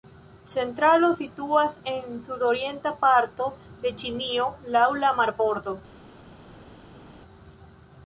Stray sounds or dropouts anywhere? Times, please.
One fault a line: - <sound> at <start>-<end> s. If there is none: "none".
none